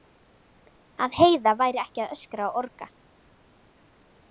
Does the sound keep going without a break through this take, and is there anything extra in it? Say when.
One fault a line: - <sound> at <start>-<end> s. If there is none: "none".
none